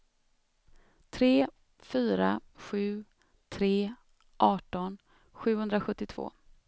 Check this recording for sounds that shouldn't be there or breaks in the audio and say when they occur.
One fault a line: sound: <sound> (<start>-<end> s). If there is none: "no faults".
no faults